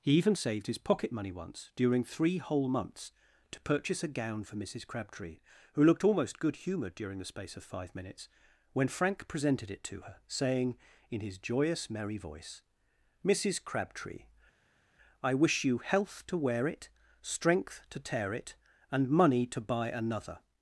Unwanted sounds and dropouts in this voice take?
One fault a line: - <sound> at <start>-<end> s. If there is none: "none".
none